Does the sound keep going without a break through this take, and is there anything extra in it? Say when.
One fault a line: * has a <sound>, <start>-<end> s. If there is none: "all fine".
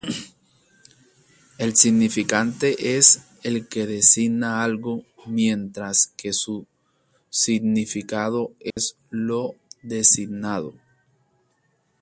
* has a dropout, 8.7-8.8 s